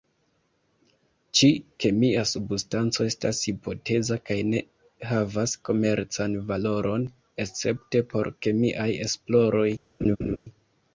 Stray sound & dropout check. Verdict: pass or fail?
fail